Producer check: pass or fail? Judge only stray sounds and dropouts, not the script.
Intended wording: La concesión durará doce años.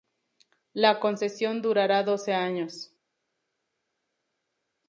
pass